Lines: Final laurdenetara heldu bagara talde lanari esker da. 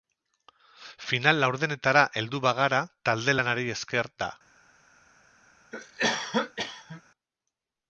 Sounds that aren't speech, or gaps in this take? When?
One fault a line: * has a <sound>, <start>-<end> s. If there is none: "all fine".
* has a cough, 5.7-7.0 s